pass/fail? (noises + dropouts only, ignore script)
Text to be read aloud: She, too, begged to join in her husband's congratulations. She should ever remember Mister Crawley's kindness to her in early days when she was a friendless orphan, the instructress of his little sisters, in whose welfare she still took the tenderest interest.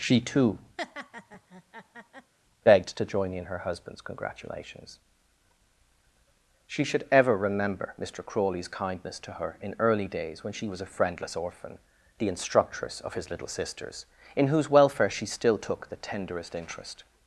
fail